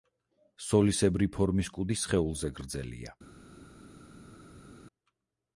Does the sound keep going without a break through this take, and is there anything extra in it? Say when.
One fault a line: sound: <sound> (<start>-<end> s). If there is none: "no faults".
no faults